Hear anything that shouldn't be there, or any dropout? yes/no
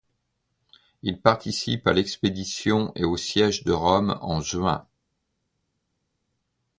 no